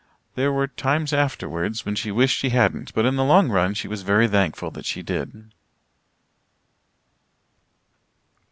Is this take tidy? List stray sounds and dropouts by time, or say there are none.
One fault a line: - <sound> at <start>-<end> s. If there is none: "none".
none